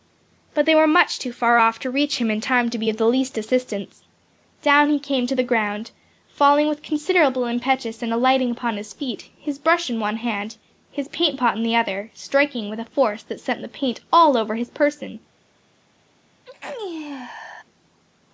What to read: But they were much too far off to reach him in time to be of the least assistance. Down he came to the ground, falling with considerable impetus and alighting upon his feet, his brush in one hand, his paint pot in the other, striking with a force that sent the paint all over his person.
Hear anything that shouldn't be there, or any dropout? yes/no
yes